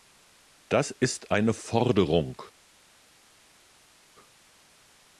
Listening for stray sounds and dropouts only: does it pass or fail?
pass